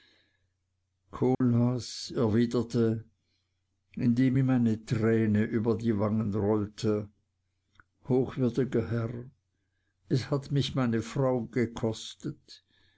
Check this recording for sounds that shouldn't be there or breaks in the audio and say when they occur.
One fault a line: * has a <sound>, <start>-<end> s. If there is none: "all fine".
* has a dropout, 1.3-1.4 s